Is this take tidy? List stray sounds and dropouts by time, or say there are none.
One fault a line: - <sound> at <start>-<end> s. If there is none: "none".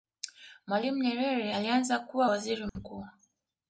- dropout at 2.7-2.8 s